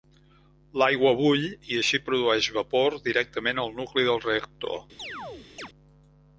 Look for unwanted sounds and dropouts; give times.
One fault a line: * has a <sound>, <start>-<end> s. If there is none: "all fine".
* has a chirp, 5.0-5.7 s